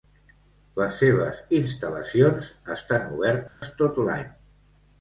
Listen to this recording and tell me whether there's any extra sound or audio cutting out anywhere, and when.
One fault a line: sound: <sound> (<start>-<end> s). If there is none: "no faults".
sound: dropout (3.5-3.6 s)